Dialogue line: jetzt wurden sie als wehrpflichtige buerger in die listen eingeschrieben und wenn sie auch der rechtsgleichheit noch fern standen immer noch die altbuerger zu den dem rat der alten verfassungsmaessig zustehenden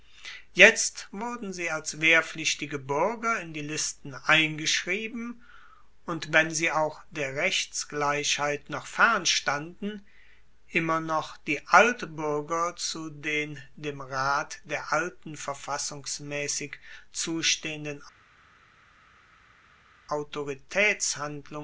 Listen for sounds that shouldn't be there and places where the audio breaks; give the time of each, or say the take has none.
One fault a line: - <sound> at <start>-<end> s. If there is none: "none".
none